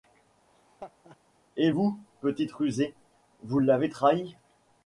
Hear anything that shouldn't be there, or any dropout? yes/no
yes